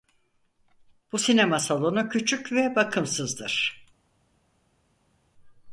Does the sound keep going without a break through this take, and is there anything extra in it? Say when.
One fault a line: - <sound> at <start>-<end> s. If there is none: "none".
none